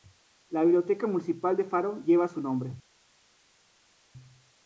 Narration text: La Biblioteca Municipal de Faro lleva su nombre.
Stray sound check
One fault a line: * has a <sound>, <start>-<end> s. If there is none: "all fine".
all fine